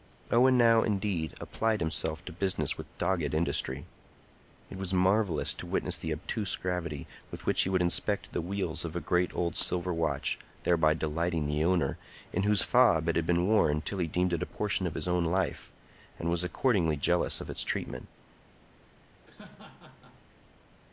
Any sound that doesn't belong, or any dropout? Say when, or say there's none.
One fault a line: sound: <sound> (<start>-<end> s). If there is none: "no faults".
sound: laugh (19.3-20.3 s)